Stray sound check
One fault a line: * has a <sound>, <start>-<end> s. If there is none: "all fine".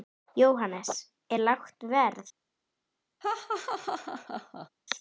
* has a laugh, 3.2-4.7 s